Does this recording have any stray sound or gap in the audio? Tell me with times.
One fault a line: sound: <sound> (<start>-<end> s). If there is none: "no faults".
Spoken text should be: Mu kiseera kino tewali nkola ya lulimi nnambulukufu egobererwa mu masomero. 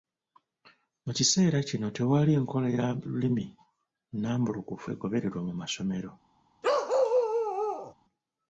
sound: bark (6.6-7.9 s)